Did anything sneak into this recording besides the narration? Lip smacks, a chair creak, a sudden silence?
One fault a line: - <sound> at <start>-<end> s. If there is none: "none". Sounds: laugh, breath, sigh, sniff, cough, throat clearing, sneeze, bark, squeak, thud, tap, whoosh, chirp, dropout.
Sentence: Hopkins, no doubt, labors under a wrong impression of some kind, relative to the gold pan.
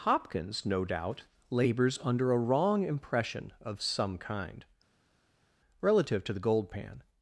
none